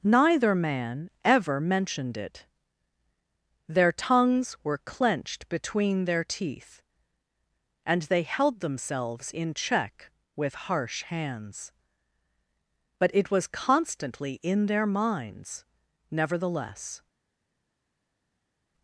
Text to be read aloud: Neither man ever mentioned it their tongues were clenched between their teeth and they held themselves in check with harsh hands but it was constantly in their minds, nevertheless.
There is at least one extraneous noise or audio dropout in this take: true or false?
false